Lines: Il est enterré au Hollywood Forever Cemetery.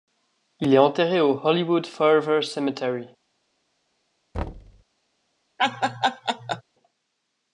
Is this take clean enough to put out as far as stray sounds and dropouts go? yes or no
no